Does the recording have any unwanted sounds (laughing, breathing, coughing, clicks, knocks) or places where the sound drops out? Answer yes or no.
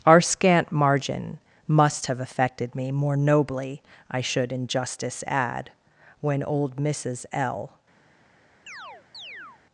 yes